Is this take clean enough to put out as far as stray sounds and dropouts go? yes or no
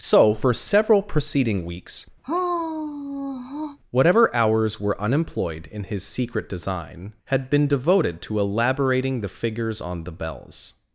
no